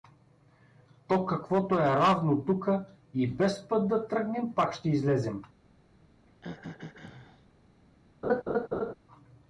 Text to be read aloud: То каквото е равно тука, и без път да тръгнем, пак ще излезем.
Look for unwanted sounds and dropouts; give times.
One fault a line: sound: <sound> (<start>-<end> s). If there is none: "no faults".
sound: throat clearing (6.3-7.5 s)
sound: laugh (8.2-8.9 s)